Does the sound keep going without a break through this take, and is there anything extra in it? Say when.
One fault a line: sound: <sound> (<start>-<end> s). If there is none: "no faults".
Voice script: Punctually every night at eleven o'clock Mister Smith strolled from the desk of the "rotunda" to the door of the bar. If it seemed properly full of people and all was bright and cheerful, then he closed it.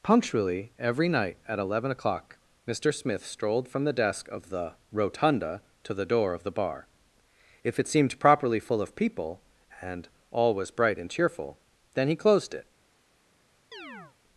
sound: chirp (13.7-14.2 s)